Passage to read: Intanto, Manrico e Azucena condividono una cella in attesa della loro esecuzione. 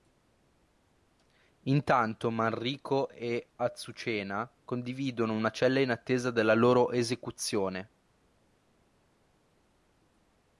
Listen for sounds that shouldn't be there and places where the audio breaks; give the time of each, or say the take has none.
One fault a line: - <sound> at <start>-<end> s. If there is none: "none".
none